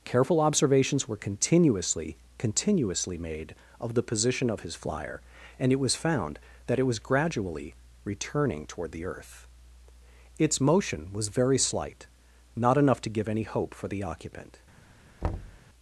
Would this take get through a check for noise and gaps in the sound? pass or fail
fail